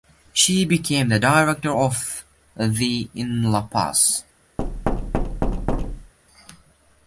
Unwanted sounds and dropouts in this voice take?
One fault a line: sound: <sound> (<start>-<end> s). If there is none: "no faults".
sound: thud (4.6-6.1 s)